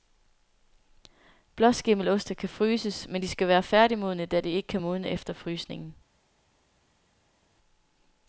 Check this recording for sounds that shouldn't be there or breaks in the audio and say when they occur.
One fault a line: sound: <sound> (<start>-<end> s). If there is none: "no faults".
no faults